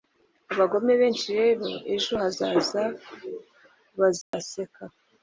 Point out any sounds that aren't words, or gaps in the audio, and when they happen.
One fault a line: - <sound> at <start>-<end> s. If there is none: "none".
- dropout at 4.2-4.3 s